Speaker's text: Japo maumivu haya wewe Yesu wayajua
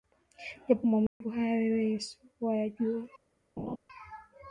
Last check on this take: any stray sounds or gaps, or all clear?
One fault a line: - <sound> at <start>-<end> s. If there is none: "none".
- dropout at 1.1-1.2 s
- laugh at 3.6-3.8 s